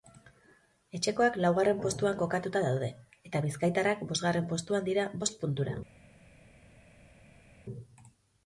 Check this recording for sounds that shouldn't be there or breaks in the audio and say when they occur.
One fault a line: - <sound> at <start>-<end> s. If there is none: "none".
none